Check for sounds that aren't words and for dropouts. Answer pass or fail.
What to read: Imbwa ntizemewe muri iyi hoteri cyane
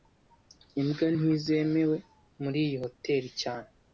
pass